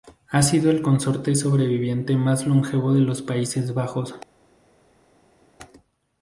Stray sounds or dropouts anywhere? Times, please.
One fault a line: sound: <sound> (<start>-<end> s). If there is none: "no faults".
no faults